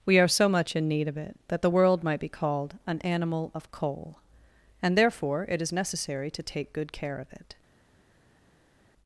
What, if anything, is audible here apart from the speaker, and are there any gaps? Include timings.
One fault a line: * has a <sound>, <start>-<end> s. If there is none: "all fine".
all fine